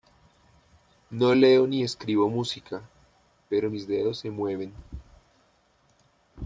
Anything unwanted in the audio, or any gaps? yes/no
no